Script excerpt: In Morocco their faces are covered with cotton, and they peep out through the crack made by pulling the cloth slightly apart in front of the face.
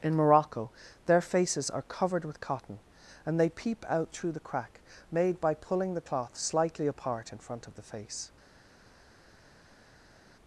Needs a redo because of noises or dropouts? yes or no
no